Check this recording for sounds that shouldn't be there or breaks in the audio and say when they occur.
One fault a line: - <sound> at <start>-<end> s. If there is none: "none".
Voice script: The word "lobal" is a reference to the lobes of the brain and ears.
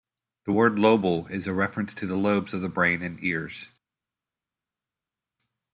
none